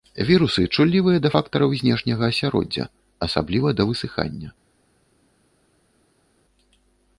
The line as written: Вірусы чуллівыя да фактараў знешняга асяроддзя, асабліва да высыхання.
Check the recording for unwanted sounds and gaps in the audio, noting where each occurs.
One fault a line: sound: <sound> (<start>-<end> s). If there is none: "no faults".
no faults